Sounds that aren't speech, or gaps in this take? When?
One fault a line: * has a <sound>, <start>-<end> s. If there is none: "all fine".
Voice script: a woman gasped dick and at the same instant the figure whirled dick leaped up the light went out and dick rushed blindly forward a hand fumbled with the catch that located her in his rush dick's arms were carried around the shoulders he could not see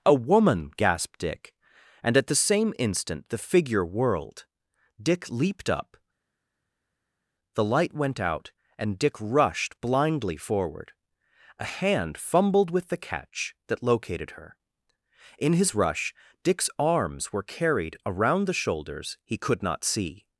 all fine